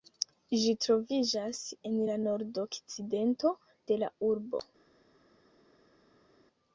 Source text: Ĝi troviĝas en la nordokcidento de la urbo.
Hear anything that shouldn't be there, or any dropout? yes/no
no